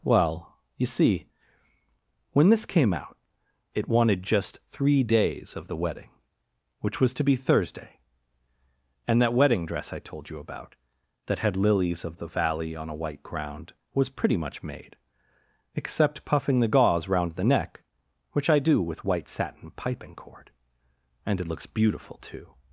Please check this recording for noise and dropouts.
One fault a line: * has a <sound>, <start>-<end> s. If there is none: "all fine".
all fine